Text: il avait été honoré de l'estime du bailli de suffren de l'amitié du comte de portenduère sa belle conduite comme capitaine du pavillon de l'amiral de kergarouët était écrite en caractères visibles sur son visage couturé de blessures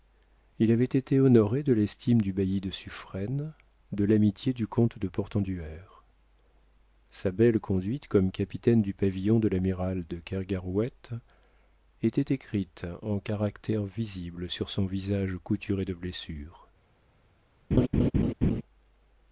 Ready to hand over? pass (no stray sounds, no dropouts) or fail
fail